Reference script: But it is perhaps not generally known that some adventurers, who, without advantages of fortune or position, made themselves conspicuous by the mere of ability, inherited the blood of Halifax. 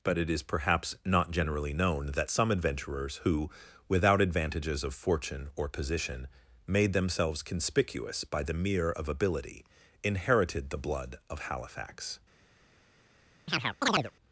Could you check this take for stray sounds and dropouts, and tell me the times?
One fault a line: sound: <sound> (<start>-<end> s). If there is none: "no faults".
sound: chirp (13.5-14.1 s)